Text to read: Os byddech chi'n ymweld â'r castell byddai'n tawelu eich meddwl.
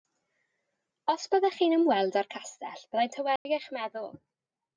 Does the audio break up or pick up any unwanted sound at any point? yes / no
yes